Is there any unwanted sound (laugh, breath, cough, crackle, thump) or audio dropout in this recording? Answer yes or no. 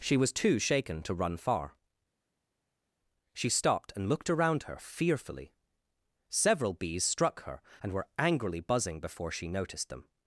no